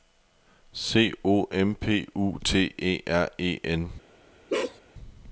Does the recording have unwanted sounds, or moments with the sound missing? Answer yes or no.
yes